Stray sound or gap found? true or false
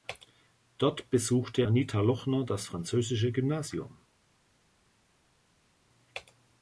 false